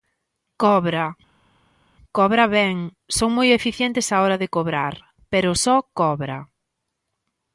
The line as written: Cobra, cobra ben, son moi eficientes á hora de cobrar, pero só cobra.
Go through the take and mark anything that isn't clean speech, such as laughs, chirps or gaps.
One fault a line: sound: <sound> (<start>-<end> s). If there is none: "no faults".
no faults